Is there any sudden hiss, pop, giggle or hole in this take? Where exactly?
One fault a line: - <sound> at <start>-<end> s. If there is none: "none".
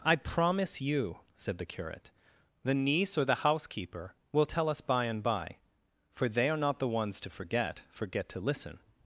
none